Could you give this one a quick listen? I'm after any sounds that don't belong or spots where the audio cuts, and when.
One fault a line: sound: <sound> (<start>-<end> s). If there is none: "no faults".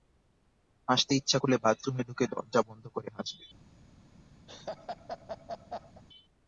sound: laugh (4.5-6.0 s)